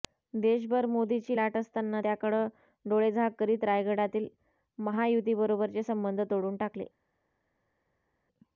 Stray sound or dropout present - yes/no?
no